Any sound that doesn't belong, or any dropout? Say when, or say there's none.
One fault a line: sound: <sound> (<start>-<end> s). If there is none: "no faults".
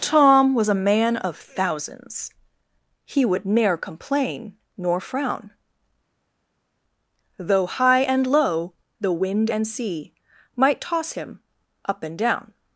no faults